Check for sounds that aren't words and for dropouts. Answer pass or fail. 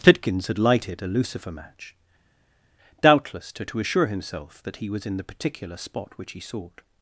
pass